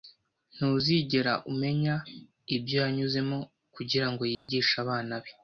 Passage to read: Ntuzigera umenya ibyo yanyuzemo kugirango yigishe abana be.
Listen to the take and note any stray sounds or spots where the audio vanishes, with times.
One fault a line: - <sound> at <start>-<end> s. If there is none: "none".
- dropout at 4.3-4.5 s